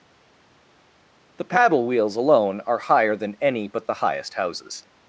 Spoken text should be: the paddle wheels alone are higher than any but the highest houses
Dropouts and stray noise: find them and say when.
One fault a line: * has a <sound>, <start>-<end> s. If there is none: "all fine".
all fine